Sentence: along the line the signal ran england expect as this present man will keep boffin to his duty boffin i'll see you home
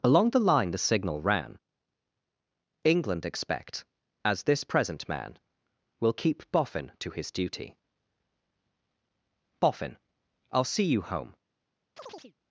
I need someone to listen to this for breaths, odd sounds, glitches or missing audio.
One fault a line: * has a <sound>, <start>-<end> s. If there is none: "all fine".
* has a chirp, 12.0-12.3 s